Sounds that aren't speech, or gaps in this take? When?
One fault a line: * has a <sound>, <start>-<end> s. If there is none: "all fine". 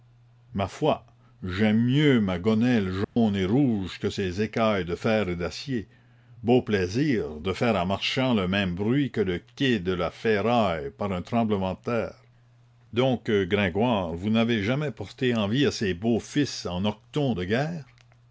* has a dropout, 3.0-3.2 s